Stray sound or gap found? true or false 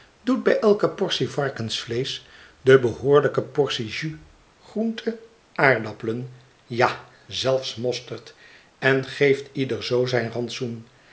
false